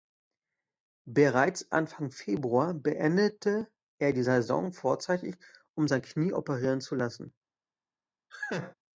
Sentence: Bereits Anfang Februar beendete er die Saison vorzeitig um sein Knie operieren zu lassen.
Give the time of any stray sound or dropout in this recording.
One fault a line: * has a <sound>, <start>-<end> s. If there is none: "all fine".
* has a laugh, 8.3-8.7 s